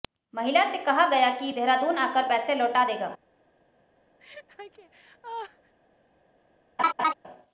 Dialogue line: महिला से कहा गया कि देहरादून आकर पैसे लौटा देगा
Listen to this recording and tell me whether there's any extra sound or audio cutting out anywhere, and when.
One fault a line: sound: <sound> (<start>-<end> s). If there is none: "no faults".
sound: laugh (4.2-5.7 s)
sound: laugh (6.8-7.1 s)